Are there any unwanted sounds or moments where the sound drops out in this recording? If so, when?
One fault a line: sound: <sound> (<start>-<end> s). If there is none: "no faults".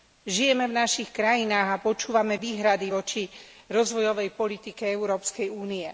no faults